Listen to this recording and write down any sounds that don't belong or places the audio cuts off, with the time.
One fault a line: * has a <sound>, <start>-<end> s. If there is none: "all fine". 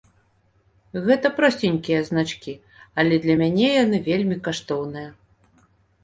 all fine